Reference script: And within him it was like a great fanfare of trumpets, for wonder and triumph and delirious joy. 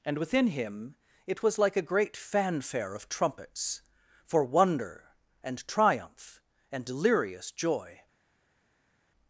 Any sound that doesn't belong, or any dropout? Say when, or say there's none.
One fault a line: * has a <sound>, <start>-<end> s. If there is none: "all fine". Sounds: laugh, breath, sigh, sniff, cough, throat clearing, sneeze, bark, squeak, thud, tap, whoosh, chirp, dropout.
all fine